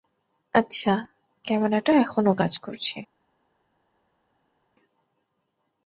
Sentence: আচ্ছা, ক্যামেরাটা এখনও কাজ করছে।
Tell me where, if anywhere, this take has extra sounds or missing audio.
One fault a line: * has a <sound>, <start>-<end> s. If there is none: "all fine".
all fine